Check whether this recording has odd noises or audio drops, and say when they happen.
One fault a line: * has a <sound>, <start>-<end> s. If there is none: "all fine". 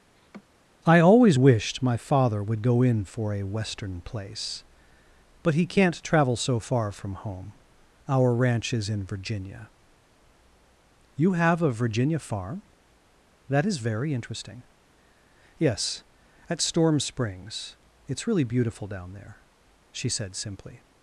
* has a laugh, 0.1-0.4 s